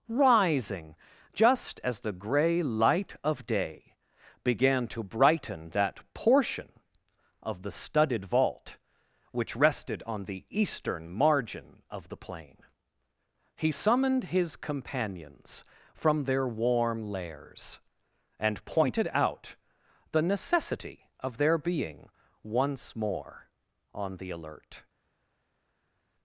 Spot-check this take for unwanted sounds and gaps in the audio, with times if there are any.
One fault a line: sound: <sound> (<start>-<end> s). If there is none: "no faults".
no faults